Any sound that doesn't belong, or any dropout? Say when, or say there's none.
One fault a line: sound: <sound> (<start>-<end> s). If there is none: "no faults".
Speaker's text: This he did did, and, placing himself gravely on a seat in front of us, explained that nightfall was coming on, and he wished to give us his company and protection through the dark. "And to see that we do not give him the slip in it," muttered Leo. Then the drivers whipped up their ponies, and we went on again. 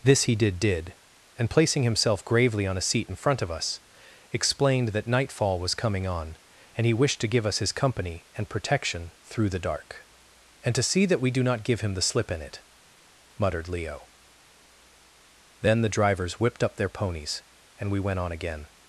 no faults